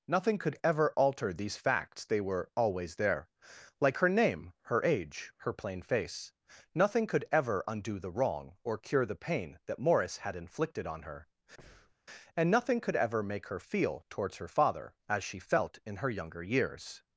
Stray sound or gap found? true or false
true